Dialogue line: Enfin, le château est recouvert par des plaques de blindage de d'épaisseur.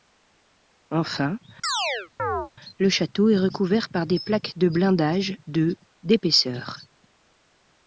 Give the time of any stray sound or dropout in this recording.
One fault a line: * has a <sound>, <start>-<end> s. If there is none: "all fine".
* has a chirp, 1.6-2.5 s